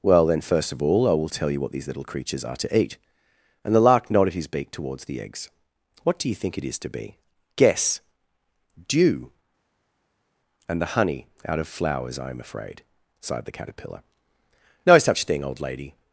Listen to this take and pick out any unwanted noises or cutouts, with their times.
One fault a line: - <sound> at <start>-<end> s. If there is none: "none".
none